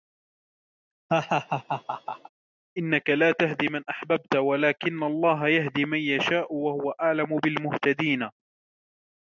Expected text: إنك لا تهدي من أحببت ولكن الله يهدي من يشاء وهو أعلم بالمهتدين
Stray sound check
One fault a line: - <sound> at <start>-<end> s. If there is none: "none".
- laugh at 1.1-2.3 s